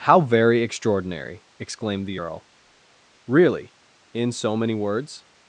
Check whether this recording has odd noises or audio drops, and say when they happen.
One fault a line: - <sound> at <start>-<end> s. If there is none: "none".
none